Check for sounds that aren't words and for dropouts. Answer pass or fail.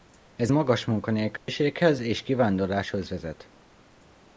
fail